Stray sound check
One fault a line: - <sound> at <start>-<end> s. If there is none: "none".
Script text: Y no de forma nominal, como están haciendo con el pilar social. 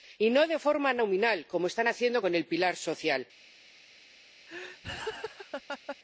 - laugh at 4.5-6.0 s